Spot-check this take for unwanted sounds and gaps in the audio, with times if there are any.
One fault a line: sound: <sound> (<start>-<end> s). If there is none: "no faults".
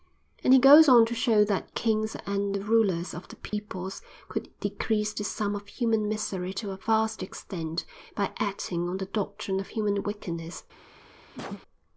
sound: dropout (3.5-3.5 s)
sound: cough (11.3-11.6 s)